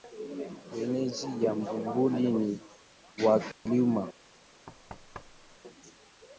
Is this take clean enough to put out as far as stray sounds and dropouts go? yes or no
no